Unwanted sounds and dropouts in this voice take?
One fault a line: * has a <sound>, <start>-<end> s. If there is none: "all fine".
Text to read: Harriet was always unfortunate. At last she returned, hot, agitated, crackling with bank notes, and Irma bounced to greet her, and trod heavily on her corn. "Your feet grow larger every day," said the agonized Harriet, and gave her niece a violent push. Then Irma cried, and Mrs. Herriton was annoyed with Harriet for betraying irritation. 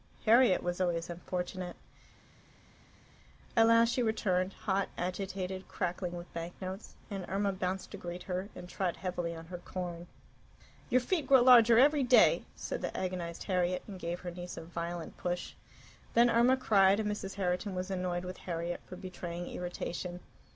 all fine